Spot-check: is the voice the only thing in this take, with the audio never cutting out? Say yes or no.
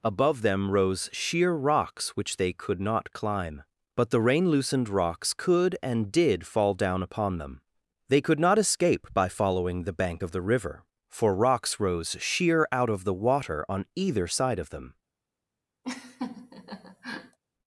no